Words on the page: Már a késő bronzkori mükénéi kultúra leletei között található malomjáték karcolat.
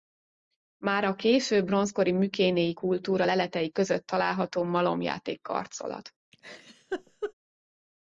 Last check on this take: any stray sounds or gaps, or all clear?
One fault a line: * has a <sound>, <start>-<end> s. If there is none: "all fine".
* has a laugh, 6.3-7.3 s